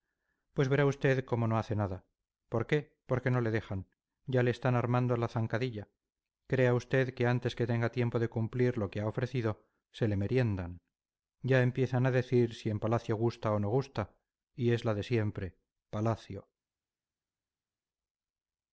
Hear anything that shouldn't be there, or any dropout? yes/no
no